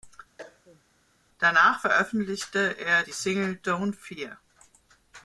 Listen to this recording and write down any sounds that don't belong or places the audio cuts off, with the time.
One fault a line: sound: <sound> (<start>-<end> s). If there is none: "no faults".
sound: cough (0.4-0.8 s)